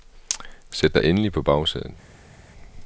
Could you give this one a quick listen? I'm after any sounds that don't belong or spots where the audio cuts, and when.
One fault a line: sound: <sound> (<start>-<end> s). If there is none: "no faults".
no faults